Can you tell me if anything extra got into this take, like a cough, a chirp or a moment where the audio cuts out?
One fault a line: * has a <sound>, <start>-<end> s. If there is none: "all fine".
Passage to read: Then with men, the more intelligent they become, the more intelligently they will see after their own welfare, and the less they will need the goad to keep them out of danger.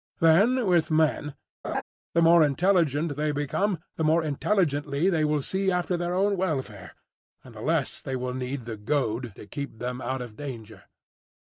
* has a laugh, 1.6-1.8 s